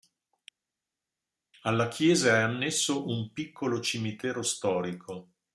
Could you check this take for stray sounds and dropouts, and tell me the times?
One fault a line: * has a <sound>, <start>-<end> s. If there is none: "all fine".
all fine